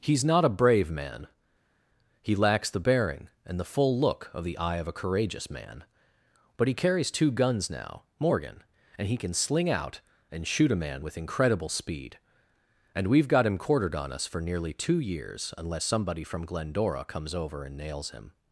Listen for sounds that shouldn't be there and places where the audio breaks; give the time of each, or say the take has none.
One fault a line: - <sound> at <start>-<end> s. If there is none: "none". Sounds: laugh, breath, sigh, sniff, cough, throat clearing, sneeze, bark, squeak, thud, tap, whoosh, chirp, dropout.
none